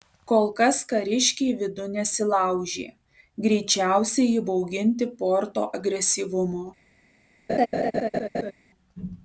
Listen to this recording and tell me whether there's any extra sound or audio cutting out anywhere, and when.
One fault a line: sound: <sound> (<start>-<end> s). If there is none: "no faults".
sound: laugh (7.5-8.5 s)